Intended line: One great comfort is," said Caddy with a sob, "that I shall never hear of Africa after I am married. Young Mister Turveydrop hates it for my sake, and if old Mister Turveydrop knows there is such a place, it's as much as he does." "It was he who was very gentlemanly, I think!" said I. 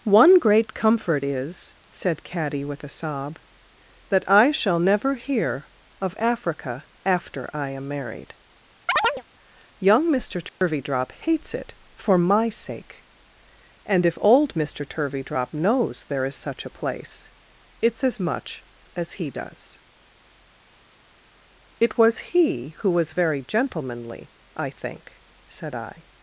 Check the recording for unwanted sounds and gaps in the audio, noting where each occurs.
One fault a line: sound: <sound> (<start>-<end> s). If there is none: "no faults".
sound: chirp (8.9-9.2 s)
sound: dropout (10.5-10.6 s)